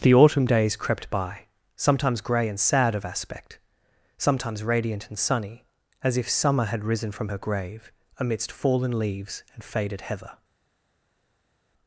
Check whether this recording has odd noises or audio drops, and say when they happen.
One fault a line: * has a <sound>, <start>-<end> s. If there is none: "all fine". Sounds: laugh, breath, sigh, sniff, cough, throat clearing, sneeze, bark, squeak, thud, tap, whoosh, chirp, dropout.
all fine